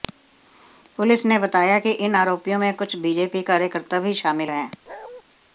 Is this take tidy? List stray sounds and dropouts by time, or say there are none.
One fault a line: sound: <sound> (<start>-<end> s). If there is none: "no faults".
sound: bark (4.9-5.2 s)